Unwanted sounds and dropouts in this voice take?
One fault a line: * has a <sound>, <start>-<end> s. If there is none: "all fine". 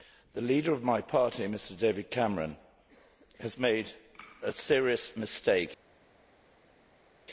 all fine